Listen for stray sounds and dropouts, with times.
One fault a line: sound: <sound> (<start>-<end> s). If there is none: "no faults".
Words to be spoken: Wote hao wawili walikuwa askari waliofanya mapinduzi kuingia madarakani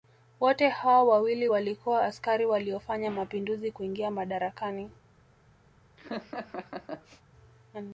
sound: laugh (6.0-7.2 s)